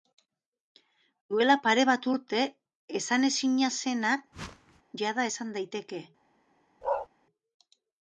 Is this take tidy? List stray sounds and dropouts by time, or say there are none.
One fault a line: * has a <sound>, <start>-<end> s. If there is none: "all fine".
* has a whoosh, 4.3-4.8 s
* has a bark, 6.8-7.1 s